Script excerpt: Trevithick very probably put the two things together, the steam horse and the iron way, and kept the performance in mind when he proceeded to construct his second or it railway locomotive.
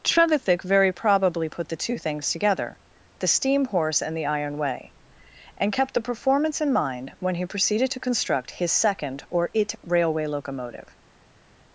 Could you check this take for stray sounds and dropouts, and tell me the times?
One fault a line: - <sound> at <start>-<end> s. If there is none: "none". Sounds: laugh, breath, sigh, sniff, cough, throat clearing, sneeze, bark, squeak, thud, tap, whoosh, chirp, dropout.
none